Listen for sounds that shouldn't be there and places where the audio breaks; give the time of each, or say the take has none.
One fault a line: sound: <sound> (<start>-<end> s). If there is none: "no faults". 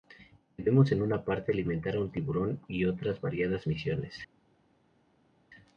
no faults